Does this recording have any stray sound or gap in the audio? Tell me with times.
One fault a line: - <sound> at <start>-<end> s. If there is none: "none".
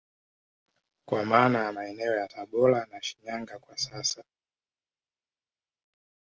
none